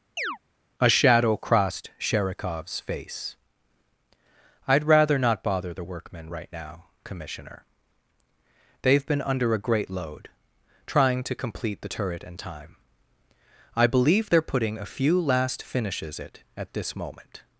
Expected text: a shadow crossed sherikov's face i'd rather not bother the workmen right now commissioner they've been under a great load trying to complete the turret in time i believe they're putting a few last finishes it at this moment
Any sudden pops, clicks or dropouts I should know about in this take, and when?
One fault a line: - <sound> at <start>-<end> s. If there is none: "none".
- chirp at 0.2-0.4 s